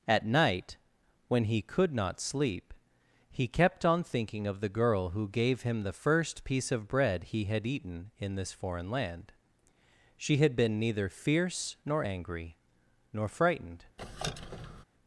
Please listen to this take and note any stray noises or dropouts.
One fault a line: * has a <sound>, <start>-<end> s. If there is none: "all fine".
* has a squeak, 14.0-14.8 s